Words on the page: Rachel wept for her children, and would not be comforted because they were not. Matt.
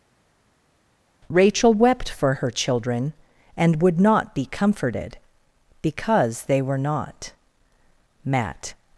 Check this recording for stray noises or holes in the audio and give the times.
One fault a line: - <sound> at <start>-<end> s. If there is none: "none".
none